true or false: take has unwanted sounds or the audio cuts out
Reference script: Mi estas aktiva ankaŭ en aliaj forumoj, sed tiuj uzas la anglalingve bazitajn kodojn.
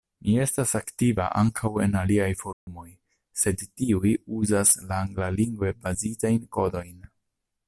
true